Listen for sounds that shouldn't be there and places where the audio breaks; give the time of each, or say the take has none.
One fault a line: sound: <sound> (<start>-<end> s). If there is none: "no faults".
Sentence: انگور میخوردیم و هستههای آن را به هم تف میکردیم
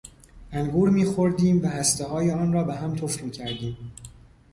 no faults